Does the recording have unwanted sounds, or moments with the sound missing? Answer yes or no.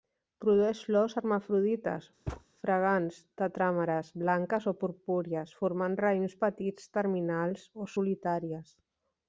yes